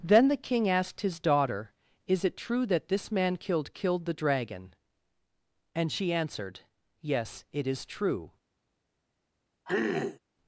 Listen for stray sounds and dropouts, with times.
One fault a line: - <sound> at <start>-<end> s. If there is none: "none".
- throat clearing at 9.7-10.2 s